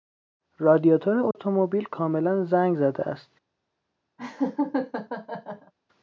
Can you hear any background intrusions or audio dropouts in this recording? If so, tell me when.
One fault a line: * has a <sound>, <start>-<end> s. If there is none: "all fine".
* has a dropout, 1.3-1.4 s
* has a laugh, 4.2-5.7 s